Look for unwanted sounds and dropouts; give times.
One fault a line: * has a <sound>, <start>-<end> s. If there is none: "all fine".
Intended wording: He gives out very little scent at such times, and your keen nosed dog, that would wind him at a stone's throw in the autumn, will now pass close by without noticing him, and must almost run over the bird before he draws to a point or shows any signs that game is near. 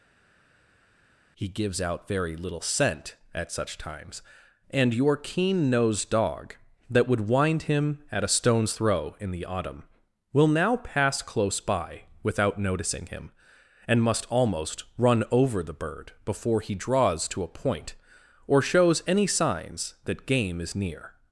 all fine